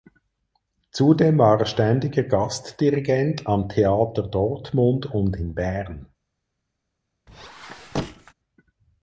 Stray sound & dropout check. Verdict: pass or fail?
fail